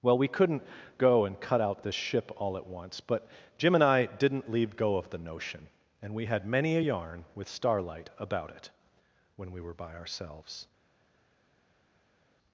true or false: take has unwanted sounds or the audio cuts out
false